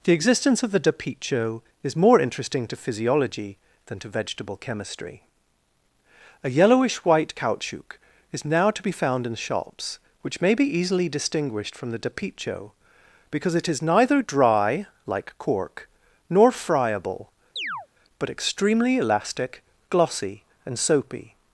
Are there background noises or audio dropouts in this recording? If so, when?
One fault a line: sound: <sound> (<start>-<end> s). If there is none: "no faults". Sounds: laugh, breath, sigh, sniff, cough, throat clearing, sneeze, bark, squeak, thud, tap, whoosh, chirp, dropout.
sound: chirp (17.6-17.9 s)